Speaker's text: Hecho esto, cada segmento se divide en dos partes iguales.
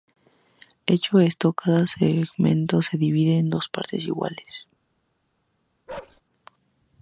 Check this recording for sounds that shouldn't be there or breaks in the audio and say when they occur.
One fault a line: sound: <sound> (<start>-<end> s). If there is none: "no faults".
sound: bark (5.9-6.2 s)